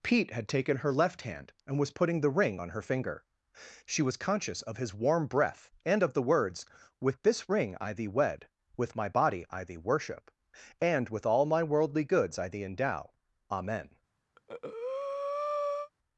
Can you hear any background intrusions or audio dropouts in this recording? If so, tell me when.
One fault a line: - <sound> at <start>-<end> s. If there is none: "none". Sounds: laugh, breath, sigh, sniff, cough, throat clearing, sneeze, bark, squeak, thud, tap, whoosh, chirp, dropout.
- breath at 14.4-15.9 s